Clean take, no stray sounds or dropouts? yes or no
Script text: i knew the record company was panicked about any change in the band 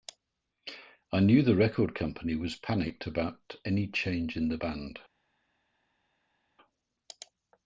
yes